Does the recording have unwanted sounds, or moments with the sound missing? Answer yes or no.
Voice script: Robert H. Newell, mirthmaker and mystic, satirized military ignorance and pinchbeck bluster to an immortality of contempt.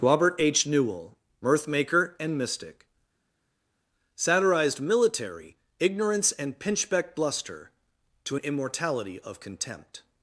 no